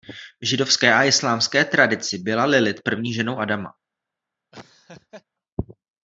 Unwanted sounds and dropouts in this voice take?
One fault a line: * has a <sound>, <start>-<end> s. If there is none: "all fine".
* has a laugh, 4.5-5.2 s